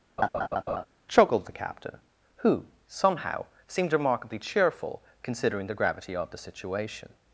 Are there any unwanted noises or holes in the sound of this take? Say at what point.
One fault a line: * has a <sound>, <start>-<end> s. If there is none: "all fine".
* has a laugh, 0.2-0.8 s